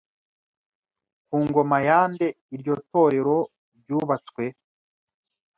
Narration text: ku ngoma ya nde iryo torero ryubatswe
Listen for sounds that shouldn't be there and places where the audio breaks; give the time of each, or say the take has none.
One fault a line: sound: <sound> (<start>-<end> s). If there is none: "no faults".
no faults